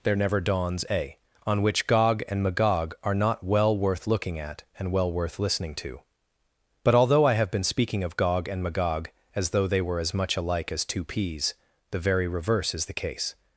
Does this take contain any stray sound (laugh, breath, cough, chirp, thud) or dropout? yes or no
no